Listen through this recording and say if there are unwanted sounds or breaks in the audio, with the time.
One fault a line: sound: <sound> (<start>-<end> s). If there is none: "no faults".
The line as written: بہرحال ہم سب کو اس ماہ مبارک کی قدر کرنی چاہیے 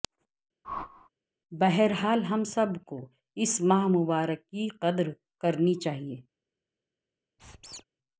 sound: whoosh (0.6-1.1 s)
sound: squeak (7.4-7.8 s)